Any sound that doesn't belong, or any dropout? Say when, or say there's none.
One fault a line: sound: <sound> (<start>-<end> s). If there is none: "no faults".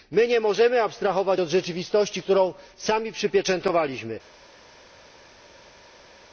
no faults